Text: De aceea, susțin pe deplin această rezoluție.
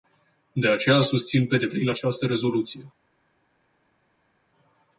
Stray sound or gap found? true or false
false